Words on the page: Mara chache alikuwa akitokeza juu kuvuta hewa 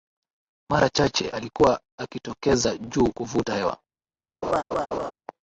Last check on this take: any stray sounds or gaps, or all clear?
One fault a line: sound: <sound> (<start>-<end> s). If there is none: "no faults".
sound: laugh (4.4-5.1 s)